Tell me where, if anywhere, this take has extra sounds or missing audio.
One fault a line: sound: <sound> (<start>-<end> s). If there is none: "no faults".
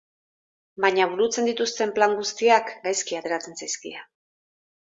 no faults